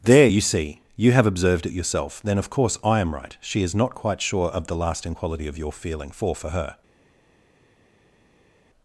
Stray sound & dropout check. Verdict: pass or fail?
pass